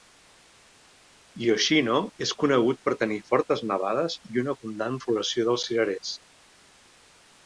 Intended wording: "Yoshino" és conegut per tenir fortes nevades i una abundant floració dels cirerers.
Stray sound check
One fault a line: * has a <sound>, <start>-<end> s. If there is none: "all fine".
all fine